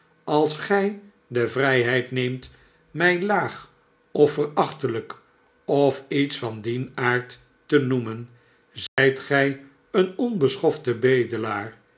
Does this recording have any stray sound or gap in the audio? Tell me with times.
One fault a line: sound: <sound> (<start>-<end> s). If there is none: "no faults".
sound: dropout (8.9-9.0 s)